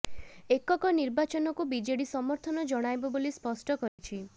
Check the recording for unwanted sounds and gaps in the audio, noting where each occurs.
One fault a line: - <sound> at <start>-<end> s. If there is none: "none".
- dropout at 3.9-4.0 s